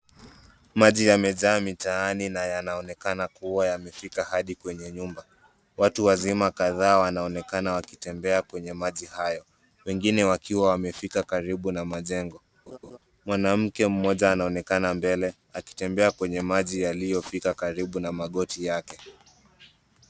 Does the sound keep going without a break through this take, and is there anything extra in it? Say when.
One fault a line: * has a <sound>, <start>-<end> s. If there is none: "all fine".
* has a laugh, 12.7-13.0 s